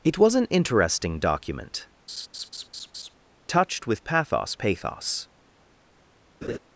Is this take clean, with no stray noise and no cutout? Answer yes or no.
no